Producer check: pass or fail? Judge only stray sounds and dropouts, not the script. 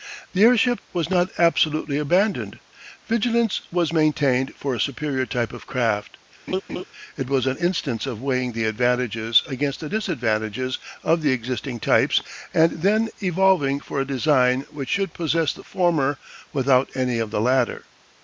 fail